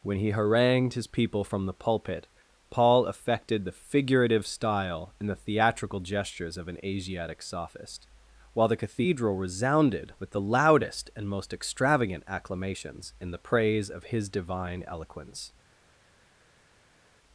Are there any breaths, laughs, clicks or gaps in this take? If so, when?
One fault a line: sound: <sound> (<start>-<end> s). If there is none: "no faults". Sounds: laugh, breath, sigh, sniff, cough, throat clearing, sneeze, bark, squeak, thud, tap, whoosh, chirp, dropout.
no faults